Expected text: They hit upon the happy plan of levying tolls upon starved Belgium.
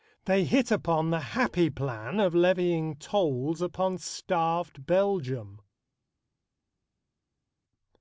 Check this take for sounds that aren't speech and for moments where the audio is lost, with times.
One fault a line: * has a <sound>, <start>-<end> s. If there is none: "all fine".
all fine